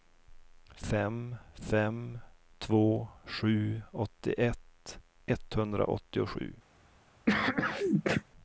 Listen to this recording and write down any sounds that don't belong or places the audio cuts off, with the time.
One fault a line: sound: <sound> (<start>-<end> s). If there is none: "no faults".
sound: sneeze (7.3-8.2 s)